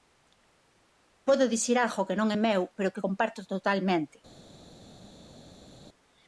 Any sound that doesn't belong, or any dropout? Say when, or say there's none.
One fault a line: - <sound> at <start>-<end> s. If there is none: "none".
none